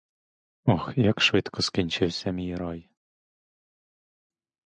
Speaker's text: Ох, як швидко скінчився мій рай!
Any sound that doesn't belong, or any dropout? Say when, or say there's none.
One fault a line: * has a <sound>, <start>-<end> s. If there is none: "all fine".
all fine